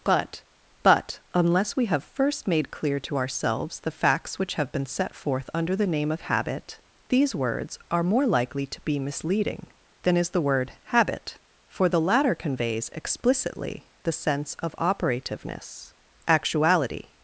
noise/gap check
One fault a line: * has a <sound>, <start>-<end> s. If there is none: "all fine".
all fine